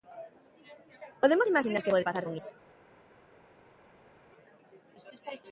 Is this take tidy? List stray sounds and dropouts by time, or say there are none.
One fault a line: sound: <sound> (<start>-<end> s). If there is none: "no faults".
no faults